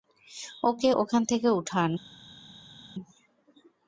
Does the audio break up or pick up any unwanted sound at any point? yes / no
no